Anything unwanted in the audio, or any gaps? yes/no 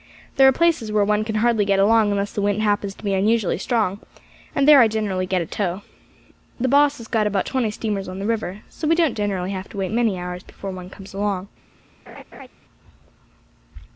yes